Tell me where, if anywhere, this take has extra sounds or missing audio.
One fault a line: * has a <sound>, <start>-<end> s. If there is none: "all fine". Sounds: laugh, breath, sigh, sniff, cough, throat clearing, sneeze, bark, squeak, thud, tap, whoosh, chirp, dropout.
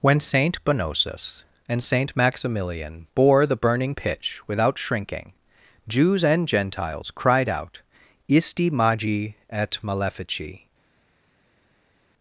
all fine